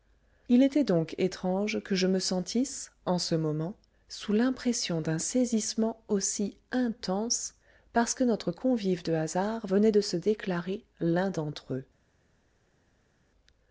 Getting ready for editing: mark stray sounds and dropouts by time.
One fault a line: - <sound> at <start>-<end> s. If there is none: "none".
none